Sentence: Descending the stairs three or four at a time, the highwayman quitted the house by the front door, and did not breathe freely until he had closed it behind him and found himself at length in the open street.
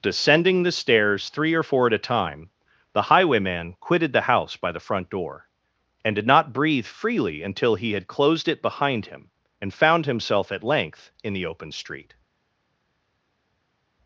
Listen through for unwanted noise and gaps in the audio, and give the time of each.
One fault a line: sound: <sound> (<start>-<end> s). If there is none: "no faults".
no faults